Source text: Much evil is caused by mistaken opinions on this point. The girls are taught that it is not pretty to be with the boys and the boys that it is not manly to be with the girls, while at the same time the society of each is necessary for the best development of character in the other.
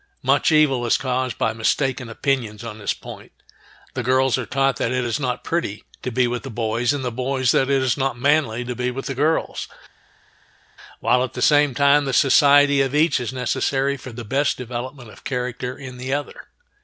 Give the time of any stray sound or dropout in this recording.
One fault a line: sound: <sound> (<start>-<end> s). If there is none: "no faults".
no faults